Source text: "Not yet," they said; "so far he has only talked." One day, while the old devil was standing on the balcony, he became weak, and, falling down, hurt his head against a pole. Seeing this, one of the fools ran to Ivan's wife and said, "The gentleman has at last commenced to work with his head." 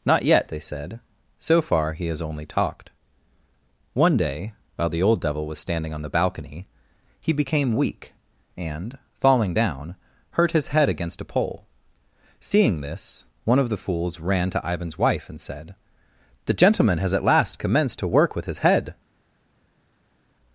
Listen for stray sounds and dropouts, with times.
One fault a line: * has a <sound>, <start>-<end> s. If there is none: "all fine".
all fine